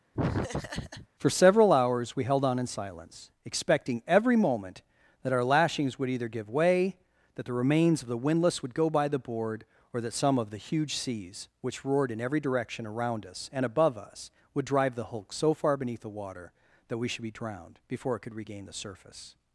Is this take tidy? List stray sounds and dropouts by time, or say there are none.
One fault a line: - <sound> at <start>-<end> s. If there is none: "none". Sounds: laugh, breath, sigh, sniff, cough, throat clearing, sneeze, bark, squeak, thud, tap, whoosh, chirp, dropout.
- laugh at 0.1-1.1 s